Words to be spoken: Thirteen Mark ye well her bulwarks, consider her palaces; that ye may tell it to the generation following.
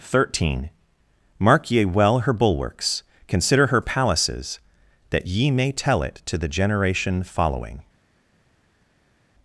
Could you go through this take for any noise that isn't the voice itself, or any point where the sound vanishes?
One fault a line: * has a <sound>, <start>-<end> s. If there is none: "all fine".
all fine